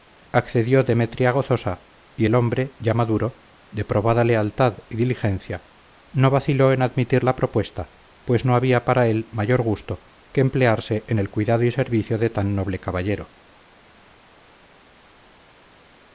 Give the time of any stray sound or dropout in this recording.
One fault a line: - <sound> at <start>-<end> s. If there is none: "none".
none